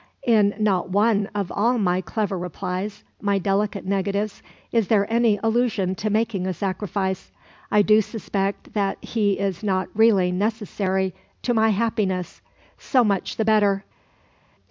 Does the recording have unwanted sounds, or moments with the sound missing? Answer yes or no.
no